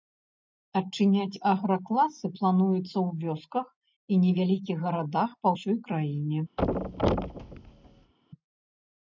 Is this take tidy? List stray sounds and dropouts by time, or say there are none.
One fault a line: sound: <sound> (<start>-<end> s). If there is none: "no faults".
sound: thud (6.6-8.1 s)